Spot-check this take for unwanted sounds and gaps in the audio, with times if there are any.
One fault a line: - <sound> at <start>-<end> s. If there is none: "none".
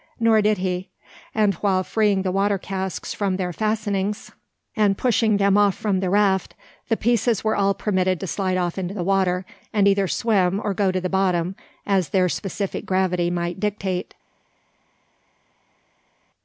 none